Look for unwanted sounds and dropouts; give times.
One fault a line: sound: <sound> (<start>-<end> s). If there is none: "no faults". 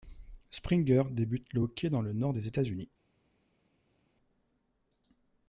no faults